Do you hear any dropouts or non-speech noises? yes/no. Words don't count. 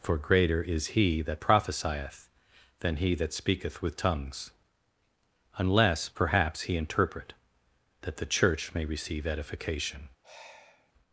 yes